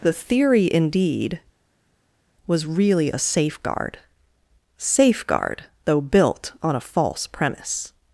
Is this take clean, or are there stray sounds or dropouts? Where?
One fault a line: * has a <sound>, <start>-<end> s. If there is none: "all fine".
all fine